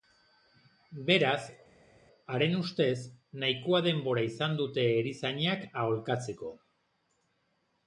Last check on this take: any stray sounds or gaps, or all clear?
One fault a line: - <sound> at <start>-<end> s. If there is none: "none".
none